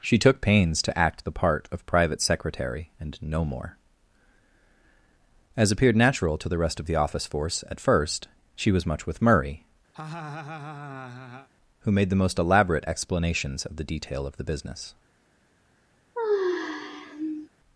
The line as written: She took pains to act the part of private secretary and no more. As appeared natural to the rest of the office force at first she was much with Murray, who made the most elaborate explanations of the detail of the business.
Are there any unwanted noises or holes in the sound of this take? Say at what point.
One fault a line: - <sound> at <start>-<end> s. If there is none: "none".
- laugh at 9.9-11.5 s
- sigh at 16.1-17.5 s